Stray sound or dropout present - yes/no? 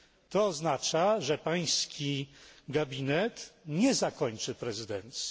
no